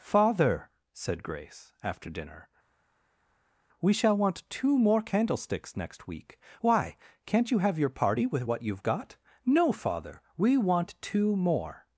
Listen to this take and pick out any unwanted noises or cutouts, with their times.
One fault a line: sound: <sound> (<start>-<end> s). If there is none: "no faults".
no faults